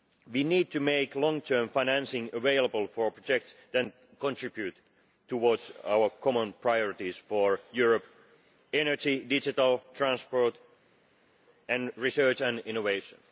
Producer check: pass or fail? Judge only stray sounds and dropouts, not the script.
pass